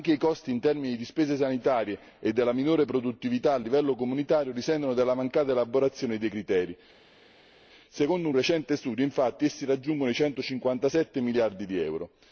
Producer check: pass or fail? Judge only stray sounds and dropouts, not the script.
pass